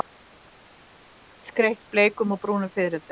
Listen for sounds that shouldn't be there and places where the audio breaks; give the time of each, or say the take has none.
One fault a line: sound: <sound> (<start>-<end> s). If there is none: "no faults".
no faults